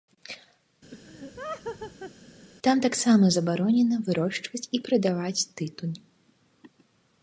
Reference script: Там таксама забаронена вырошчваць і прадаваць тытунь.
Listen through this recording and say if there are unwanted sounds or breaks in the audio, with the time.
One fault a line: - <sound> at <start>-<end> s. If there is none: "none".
- laugh at 0.9-2.1 s